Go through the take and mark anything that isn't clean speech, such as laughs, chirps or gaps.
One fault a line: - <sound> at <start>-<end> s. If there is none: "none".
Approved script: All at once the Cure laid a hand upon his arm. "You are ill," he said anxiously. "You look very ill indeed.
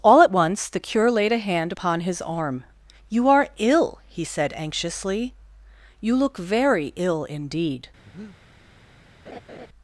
- breath at 8.0-8.4 s
- laugh at 9.3-9.7 s